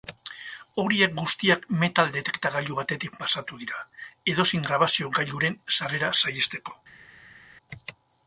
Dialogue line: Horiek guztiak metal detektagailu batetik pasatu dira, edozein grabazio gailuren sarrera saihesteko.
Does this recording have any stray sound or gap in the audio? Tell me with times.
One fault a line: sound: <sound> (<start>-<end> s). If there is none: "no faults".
no faults